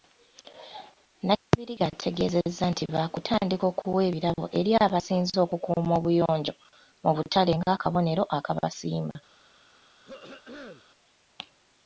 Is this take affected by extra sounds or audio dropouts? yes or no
yes